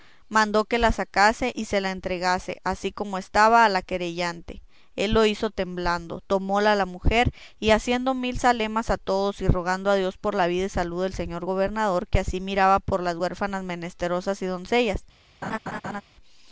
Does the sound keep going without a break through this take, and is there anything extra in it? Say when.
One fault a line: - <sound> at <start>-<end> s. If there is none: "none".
- laugh at 15.4-16.0 s